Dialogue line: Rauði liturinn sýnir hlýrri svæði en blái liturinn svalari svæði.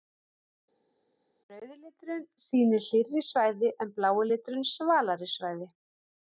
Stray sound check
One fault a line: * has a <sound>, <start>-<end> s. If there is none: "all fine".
all fine